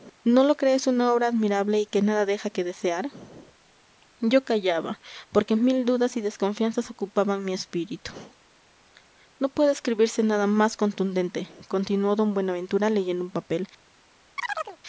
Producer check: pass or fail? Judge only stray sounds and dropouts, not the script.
fail